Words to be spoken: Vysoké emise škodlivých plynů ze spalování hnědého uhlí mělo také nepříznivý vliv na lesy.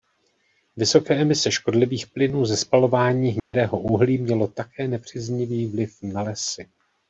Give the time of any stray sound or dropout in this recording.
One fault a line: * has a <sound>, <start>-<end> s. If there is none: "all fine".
* has a dropout, 3.4-3.5 s